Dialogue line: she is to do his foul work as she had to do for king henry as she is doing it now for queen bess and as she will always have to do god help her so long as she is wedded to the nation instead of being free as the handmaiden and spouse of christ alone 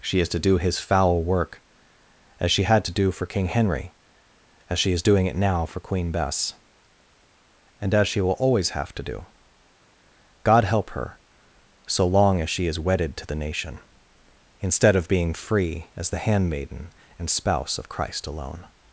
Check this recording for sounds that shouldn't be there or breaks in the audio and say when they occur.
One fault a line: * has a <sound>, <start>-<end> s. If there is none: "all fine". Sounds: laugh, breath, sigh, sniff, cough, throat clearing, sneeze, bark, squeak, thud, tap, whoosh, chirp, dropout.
all fine